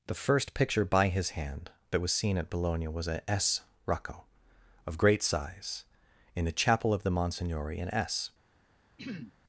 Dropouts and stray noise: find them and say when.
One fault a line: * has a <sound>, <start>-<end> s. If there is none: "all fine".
* has a throat clearing, 9.0-9.4 s